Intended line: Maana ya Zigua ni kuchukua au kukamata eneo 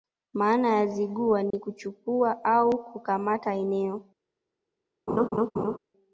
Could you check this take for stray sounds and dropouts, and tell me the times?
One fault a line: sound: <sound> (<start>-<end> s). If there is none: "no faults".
sound: dropout (1.5-1.5 s)
sound: laugh (5.1-5.8 s)